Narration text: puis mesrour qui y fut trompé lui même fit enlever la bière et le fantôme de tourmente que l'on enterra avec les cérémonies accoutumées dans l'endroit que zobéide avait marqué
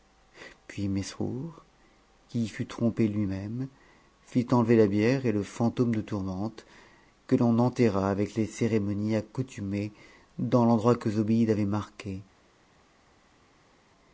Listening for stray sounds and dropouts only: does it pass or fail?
pass